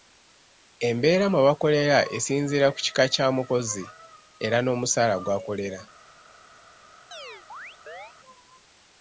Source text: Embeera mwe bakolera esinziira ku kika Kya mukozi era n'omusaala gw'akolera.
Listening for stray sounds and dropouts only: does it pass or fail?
fail